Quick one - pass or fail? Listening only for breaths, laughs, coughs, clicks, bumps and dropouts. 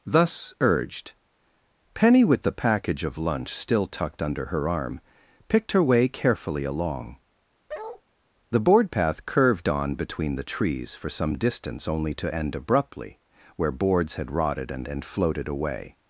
fail